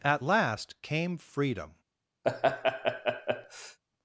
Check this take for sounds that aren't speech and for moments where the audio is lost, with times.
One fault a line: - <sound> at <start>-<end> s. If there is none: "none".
- laugh at 2.2-3.8 s